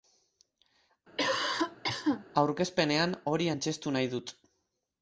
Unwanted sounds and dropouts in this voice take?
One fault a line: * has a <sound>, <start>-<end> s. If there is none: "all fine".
* has a cough, 1.2-2.3 s